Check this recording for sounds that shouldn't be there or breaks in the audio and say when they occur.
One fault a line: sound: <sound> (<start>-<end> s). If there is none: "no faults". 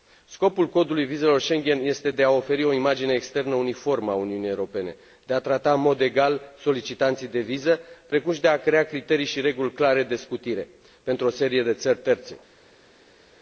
no faults